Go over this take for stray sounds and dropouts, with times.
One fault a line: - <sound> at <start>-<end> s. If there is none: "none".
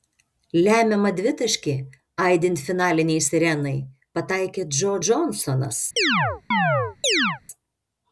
- chirp at 6.0-7.4 s